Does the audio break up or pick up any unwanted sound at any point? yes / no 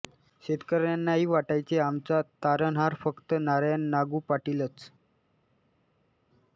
no